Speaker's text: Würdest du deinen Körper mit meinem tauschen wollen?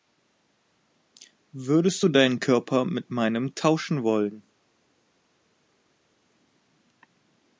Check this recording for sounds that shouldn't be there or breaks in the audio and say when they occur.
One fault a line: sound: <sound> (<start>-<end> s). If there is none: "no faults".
no faults